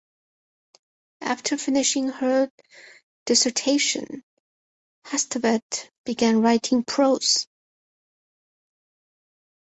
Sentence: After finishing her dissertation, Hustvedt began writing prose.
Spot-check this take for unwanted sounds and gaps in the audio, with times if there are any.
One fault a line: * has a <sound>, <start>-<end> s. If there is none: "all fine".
all fine